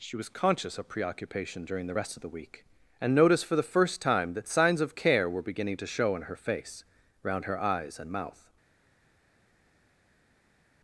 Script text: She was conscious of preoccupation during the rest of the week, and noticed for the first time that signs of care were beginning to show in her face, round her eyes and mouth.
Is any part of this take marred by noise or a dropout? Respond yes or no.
no